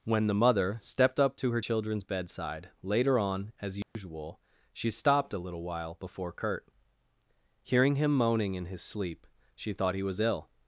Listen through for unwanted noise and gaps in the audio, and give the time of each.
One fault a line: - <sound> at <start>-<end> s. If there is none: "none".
- dropout at 3.8-4.0 s